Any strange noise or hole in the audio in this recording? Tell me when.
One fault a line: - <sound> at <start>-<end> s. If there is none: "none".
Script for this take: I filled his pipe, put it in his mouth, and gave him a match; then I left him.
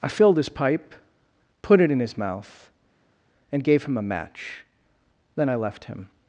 none